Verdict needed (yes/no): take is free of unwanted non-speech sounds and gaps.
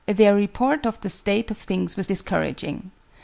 yes